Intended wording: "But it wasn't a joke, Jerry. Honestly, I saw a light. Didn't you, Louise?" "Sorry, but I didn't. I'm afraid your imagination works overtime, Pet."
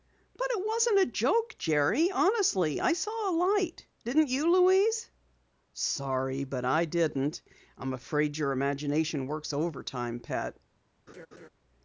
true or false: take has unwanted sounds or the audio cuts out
true